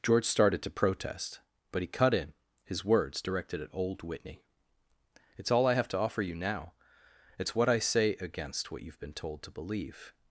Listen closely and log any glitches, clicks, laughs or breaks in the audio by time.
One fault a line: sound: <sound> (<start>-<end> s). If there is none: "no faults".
no faults